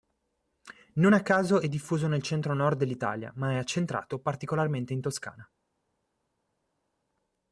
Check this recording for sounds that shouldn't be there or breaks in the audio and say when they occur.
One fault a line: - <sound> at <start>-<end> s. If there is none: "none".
none